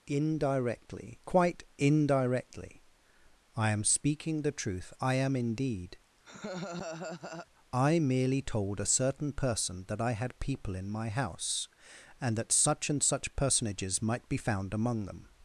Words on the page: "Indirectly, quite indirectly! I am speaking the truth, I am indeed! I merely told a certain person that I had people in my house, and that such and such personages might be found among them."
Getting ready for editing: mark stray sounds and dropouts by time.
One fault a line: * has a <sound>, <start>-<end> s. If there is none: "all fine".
* has a laugh, 6.2-7.5 s